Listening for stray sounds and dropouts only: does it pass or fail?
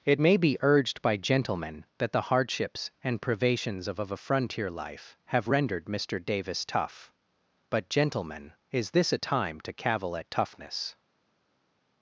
pass